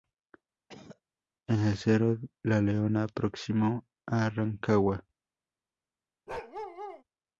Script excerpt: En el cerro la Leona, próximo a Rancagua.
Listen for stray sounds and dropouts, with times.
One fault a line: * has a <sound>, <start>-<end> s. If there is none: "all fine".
* has a cough, 0.7-1.0 s
* has a bark, 6.3-7.0 s